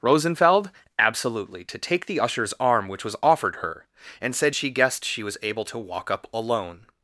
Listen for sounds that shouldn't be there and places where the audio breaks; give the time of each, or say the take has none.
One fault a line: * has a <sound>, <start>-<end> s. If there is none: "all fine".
all fine